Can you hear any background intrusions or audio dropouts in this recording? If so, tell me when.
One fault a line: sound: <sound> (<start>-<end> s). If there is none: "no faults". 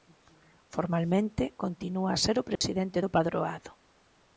sound: dropout (2.6-2.6 s)